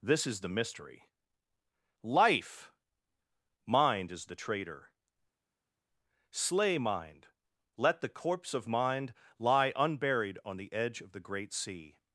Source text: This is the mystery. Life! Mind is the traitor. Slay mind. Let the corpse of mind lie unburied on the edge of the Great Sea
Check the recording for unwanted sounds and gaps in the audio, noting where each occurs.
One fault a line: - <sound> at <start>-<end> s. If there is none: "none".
none